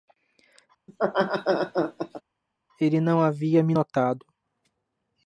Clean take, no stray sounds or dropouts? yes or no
no